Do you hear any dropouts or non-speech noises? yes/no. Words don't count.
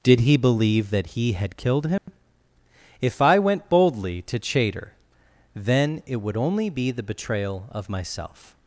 yes